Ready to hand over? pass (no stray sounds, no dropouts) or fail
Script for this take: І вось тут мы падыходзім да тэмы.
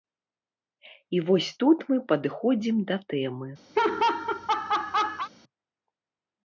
fail